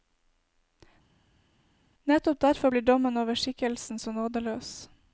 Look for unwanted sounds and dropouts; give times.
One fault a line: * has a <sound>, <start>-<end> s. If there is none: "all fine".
all fine